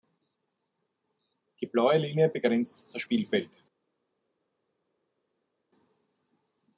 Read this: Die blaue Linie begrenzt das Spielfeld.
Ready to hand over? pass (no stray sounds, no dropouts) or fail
pass